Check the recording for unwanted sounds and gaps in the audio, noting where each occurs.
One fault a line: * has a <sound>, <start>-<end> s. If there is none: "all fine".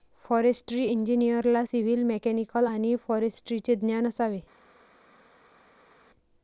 all fine